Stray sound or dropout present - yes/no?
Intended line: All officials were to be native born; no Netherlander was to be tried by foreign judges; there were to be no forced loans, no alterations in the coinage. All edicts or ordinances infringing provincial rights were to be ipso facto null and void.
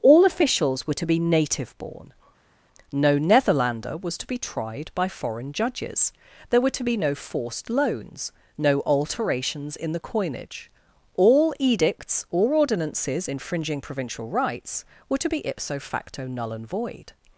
no